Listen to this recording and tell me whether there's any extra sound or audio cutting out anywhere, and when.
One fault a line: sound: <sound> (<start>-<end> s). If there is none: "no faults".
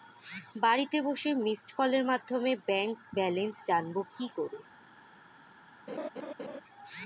sound: laugh (5.9-6.6 s)